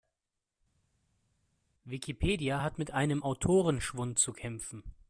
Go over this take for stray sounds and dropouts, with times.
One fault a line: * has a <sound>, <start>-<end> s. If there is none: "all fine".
all fine